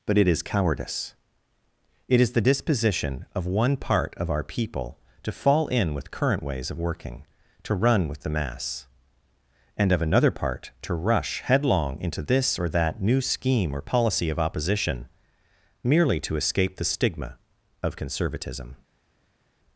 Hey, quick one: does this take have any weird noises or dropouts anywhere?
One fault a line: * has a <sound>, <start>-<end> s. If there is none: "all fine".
all fine